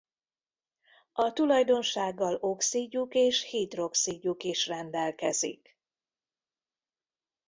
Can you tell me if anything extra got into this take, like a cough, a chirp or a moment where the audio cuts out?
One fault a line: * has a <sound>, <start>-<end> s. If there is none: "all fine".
all fine